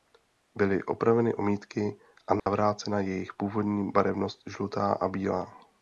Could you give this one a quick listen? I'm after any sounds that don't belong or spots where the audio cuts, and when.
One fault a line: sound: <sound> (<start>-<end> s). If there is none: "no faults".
sound: dropout (2.4-2.5 s)